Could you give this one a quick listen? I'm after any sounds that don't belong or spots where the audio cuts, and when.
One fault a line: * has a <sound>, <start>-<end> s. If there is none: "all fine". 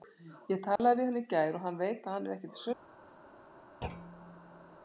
* has a dropout, 0.8-0.8 s
* has a thud, 3.8-4.8 s